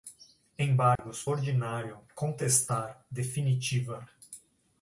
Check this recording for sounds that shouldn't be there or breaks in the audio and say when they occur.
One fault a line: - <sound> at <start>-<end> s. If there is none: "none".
- dropout at 1.0-1.0 s